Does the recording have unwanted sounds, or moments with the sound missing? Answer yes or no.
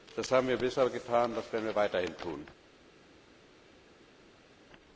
no